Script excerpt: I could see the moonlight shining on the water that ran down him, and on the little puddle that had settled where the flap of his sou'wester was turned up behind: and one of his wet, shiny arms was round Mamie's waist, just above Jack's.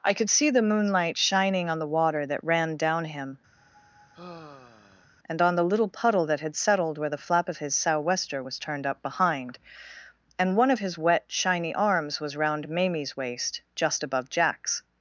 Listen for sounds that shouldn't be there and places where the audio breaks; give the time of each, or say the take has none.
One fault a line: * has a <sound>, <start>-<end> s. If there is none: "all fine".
* has a sigh, 3.6-5.1 s